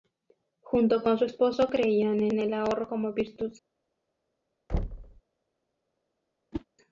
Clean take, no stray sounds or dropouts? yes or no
no